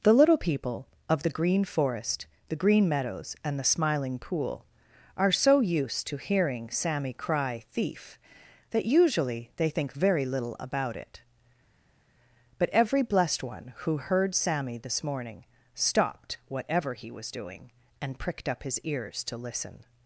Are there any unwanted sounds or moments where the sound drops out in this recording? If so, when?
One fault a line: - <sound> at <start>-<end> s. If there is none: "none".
none